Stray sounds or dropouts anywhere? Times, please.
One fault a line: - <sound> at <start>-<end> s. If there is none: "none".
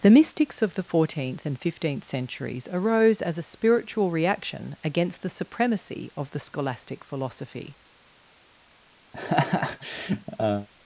- laugh at 9.1-10.7 s